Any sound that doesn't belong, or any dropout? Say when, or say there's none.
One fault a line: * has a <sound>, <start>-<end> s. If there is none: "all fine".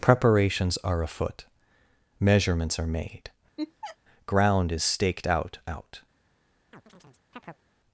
* has a laugh, 3.6-4.0 s
* has a chirp, 6.7-7.6 s